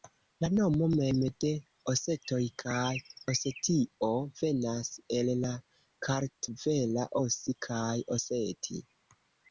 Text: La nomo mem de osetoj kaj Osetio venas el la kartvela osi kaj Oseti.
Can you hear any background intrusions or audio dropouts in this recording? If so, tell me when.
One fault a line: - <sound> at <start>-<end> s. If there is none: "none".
none